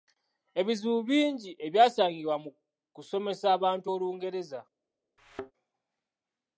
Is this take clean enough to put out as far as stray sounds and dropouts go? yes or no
no